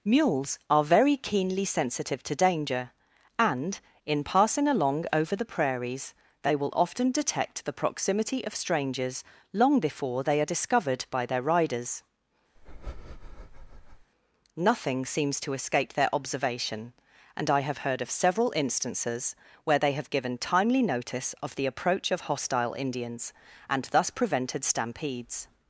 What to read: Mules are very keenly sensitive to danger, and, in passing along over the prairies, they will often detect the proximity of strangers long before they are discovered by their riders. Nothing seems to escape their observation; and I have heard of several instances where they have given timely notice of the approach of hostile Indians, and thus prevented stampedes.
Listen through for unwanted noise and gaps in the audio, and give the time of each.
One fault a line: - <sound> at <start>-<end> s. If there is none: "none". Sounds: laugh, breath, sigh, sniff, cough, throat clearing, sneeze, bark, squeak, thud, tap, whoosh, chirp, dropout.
- breath at 12.5-14.1 s